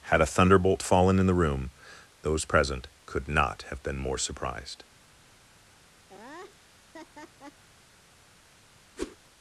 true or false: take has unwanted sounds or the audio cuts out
true